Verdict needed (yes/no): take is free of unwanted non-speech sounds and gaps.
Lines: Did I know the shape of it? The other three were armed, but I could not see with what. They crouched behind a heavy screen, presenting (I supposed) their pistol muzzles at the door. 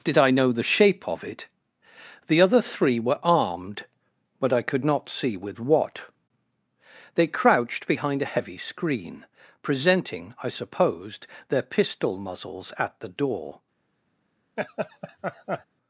no